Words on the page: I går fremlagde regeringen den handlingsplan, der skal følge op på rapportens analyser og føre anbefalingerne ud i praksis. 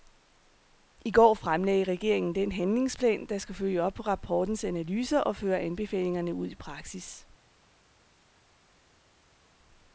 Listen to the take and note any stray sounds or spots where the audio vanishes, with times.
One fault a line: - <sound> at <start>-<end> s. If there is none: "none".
none